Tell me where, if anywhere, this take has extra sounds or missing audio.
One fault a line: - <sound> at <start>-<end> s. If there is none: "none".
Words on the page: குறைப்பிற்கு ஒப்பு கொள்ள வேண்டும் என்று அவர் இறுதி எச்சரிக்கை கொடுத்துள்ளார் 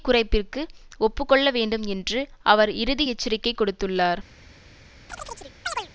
- chirp at 5.1-5.9 s